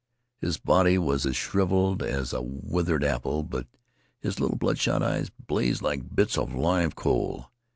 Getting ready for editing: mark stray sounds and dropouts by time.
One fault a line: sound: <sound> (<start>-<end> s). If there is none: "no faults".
no faults